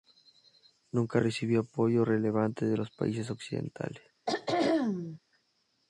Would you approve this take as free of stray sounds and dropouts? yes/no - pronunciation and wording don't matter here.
no